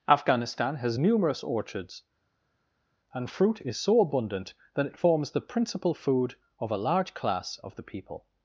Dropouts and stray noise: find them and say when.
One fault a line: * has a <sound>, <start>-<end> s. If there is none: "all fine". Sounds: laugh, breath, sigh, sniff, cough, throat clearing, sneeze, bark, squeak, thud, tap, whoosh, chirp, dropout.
all fine